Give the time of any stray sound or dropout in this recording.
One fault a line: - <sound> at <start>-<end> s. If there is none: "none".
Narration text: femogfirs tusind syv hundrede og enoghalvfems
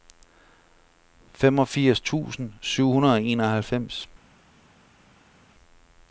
none